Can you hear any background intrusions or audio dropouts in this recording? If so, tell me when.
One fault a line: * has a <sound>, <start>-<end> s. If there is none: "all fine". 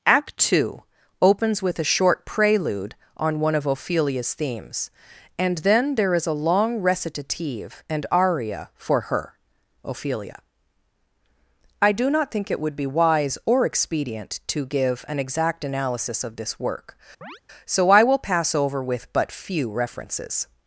* has a chirp, 17.2-17.4 s